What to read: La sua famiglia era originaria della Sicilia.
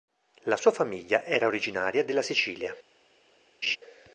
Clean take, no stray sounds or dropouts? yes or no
no